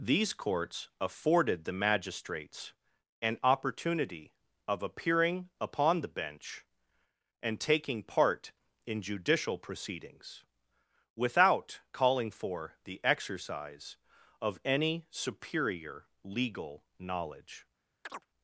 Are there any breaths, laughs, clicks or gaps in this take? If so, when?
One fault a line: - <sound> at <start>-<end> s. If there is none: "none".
- chirp at 18.0-18.3 s